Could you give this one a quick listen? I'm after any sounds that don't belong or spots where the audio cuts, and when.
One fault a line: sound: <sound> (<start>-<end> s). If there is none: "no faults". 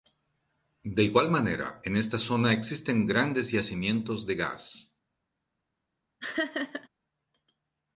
sound: laugh (6.2-6.9 s)